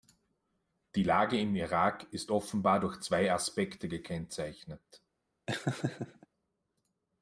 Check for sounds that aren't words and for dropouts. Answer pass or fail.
fail